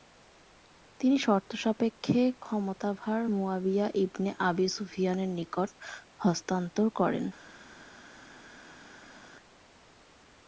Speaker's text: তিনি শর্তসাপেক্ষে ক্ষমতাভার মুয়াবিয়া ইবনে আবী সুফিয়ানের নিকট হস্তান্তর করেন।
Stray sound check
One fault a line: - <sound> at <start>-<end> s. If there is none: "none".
none